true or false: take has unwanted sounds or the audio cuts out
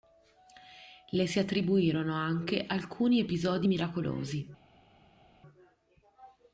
false